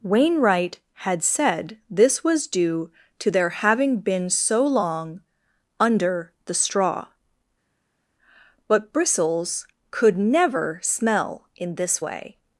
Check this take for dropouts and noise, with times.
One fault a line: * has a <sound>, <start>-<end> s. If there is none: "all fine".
all fine